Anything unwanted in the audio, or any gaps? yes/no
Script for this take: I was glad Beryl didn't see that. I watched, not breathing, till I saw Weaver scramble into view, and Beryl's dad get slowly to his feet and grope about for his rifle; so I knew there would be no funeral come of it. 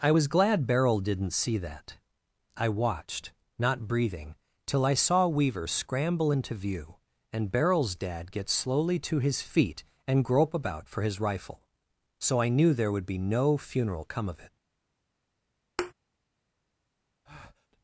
yes